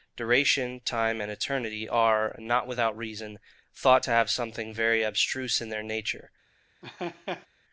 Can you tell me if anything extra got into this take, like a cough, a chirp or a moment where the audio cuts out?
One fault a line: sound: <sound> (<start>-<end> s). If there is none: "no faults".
sound: laugh (6.8-7.5 s)